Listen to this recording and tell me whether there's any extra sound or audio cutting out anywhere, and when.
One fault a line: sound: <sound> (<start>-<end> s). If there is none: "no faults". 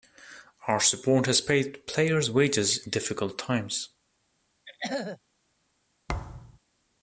sound: throat clearing (4.7-5.2 s)
sound: thud (6.1-6.6 s)